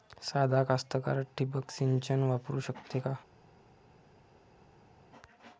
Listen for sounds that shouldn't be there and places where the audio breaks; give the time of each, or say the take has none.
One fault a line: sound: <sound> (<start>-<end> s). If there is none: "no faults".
no faults